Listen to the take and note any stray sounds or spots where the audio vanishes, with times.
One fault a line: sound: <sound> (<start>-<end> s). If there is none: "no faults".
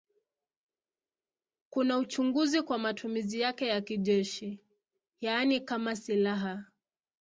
no faults